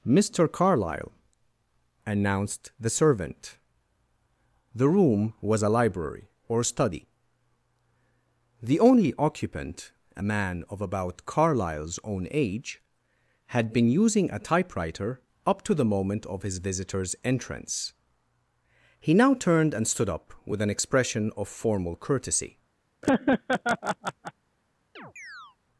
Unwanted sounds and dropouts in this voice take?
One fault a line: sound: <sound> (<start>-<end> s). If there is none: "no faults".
sound: laugh (23.0-24.3 s)
sound: chirp (25.0-25.6 s)